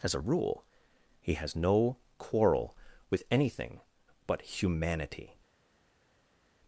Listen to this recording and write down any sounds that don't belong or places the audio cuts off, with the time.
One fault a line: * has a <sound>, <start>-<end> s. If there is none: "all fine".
all fine